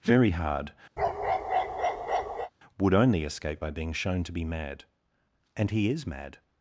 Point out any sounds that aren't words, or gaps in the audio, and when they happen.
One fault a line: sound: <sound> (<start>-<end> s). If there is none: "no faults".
sound: bark (1.0-2.5 s)